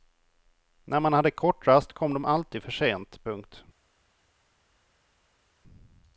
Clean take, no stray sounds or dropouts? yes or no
yes